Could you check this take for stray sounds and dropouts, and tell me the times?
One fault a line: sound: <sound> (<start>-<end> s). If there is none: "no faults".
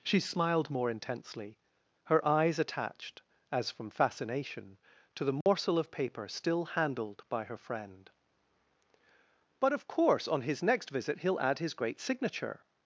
sound: dropout (5.4-5.5 s)